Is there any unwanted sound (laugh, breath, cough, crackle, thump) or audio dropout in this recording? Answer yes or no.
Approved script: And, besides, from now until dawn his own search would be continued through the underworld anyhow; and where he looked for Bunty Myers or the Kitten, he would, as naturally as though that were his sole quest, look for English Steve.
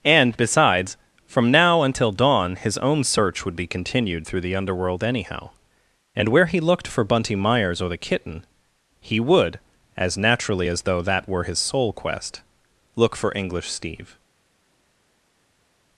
no